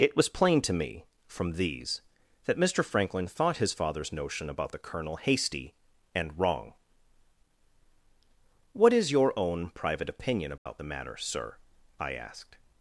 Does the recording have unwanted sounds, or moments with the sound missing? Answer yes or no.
yes